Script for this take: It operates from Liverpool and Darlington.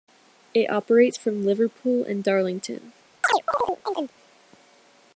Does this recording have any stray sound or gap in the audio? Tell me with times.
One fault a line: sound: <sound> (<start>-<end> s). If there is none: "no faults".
sound: chirp (3.2-4.1 s)